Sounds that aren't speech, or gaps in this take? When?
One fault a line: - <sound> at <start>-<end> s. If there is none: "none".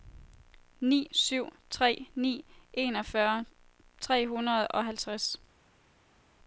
none